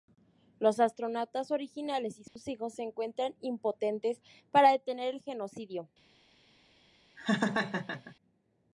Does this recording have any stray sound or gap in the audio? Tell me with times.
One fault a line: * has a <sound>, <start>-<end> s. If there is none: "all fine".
* has a dropout, 2.3-2.4 s
* has a laugh, 7.2-8.1 s